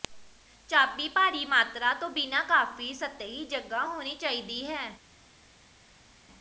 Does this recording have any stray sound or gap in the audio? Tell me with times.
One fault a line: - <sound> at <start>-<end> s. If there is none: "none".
none